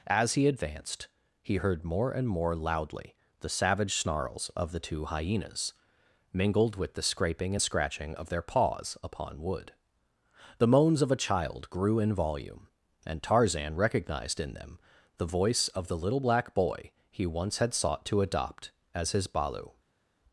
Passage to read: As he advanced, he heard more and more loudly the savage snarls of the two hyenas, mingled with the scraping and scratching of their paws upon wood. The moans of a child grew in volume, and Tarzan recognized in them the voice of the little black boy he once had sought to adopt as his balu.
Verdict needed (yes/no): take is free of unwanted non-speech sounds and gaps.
yes